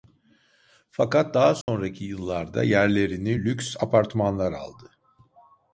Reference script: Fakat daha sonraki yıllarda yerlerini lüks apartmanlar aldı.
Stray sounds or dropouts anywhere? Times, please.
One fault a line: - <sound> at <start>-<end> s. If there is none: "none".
- dropout at 1.6-1.7 s